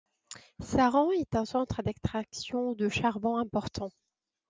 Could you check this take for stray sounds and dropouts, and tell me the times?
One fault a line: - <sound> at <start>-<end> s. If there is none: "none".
none